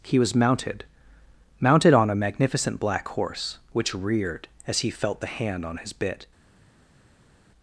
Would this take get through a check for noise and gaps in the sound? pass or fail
pass